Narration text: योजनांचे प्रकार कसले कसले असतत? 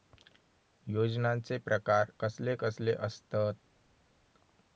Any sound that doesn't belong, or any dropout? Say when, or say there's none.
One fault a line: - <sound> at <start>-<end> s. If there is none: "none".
none